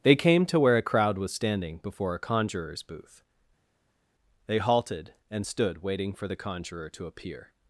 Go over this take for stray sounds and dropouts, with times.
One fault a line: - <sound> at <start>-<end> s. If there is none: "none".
none